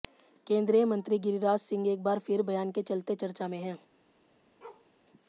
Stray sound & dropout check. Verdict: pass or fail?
fail